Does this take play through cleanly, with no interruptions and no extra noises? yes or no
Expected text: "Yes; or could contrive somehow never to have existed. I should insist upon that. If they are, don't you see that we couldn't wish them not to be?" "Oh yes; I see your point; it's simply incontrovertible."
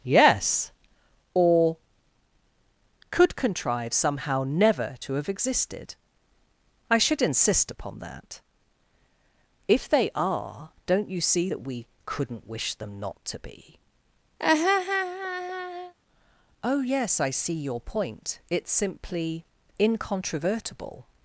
no